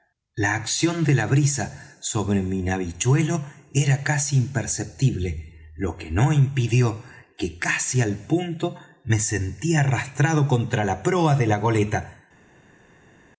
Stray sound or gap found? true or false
false